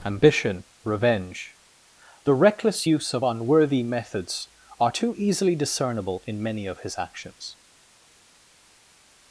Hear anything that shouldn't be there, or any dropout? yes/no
no